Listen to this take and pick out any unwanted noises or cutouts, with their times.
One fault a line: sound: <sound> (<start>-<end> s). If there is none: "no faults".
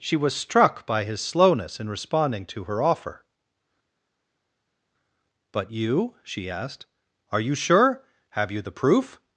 no faults